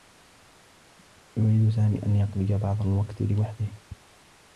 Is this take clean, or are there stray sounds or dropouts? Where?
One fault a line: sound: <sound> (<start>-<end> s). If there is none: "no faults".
no faults